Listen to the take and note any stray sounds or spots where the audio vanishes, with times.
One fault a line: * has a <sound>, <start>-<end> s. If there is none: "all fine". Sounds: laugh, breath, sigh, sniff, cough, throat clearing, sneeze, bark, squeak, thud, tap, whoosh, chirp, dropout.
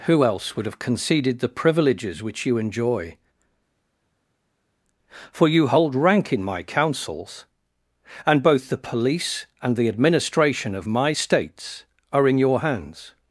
all fine